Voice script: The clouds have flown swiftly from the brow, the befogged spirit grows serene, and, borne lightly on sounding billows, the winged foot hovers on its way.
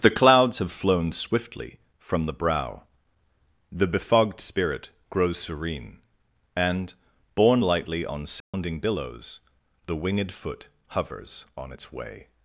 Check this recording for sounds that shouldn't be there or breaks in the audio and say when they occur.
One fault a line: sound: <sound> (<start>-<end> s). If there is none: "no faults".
sound: dropout (8.4-8.5 s)